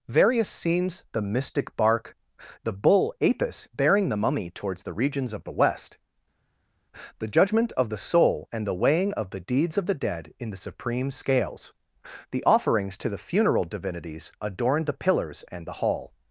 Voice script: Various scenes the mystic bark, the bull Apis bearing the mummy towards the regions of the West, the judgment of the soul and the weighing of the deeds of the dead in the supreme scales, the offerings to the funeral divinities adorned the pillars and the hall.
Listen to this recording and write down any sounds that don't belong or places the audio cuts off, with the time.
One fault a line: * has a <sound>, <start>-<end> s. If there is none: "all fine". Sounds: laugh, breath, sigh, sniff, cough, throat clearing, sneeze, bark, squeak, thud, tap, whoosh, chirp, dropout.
all fine